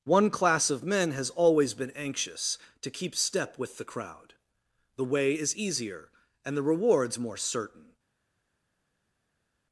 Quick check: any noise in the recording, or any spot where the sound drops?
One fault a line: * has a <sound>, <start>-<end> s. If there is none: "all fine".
all fine